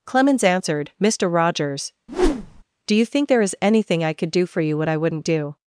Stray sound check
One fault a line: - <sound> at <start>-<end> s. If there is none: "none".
- whoosh at 2.1-2.6 s